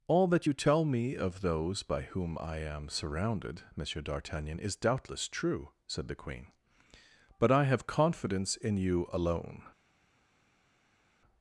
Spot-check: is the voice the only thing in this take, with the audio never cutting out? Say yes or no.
yes